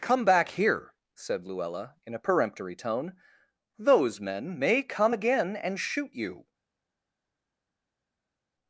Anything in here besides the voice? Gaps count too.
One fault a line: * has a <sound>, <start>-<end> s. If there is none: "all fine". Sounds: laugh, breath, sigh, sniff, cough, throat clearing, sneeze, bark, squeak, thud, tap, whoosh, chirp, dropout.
all fine